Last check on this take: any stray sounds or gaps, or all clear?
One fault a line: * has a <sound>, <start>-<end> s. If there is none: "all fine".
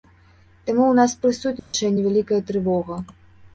* has a dropout, 1.6-1.7 s